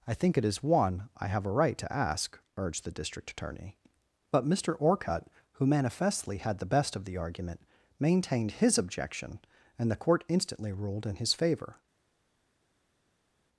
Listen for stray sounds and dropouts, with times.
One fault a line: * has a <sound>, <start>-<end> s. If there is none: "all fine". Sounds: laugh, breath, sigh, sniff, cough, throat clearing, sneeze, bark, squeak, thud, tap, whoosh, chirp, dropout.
all fine